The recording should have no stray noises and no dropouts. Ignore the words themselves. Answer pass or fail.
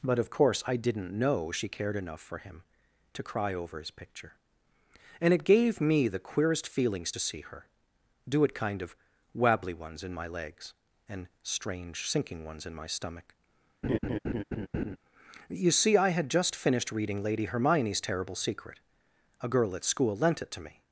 fail